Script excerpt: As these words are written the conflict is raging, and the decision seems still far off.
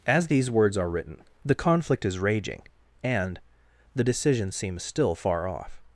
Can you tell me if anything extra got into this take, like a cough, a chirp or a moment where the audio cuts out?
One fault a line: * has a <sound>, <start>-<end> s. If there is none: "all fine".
all fine